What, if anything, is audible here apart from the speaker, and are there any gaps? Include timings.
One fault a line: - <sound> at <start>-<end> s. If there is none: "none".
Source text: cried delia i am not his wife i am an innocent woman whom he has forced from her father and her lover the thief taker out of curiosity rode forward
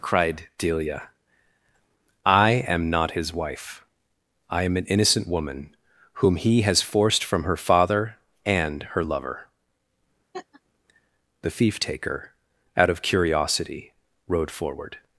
- laugh at 10.3-10.6 s